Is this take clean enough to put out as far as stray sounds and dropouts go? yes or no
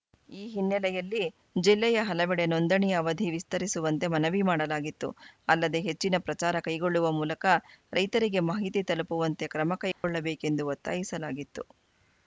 no